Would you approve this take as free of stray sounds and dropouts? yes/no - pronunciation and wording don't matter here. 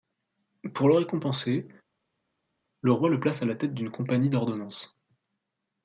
yes